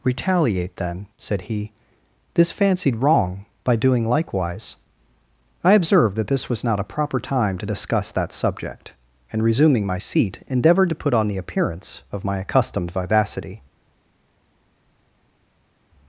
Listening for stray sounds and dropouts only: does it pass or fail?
pass